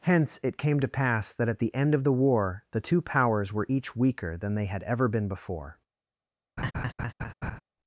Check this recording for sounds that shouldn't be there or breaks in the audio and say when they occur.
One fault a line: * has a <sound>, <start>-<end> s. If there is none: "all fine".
* has a laugh, 6.6-7.6 s